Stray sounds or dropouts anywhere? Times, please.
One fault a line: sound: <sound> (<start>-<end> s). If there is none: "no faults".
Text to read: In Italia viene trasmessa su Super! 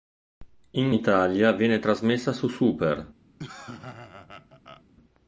sound: laugh (3.4-4.8 s)